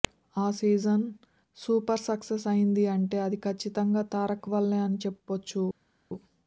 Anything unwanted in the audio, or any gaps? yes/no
no